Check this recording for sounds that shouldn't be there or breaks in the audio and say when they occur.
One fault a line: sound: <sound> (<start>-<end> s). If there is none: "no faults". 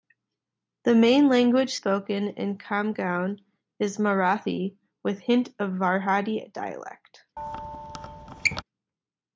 sound: squeak (7.4-8.6 s)